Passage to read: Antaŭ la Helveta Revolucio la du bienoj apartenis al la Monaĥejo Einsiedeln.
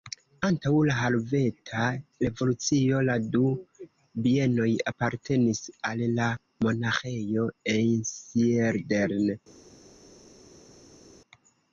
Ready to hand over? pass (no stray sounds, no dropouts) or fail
pass